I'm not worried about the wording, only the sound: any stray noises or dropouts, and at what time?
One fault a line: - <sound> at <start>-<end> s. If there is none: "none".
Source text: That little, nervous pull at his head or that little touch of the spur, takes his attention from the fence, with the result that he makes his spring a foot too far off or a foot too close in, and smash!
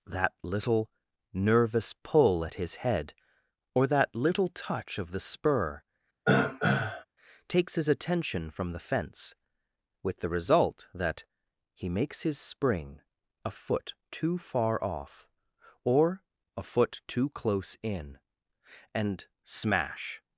- throat clearing at 6.3-7.1 s